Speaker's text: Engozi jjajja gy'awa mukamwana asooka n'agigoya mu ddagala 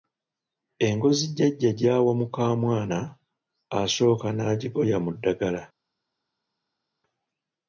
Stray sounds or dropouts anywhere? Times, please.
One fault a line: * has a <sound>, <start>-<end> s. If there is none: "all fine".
all fine